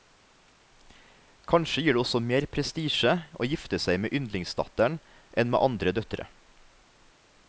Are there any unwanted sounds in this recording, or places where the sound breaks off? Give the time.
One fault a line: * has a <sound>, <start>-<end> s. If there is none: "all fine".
all fine